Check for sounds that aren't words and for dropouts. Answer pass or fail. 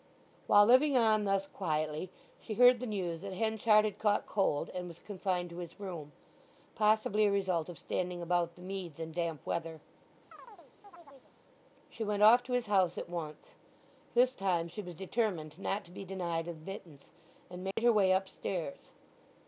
fail